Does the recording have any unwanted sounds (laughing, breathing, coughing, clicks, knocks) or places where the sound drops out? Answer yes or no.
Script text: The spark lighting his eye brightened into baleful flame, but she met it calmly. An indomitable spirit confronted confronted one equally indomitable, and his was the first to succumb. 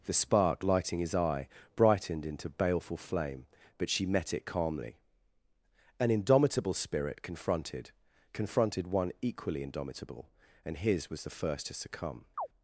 yes